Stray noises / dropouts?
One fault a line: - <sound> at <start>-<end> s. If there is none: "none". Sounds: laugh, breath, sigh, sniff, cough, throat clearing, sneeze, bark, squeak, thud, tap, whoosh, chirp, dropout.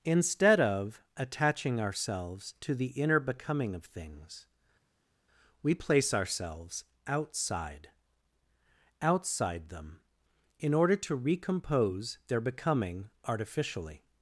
none